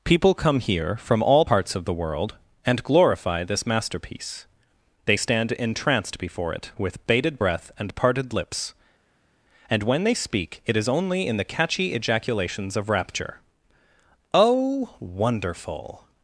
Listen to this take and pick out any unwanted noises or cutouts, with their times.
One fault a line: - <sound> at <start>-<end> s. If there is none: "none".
none